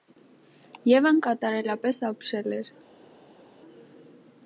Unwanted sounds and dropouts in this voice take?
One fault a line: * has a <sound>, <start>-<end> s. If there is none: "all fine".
all fine